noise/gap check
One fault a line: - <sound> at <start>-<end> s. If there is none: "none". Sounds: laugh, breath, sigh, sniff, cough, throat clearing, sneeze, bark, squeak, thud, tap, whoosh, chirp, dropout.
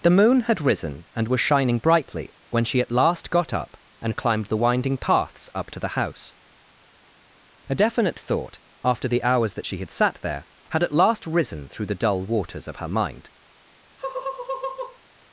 - laugh at 14.0-15.0 s